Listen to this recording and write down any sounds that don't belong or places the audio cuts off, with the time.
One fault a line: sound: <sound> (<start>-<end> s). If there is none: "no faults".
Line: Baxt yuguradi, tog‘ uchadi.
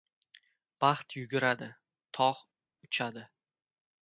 no faults